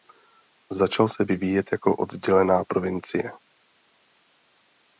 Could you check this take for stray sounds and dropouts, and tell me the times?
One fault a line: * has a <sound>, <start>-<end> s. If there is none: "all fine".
all fine